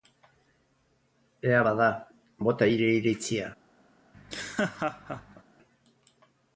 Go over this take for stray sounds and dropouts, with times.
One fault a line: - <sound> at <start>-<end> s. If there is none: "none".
- laugh at 4.1-5.4 s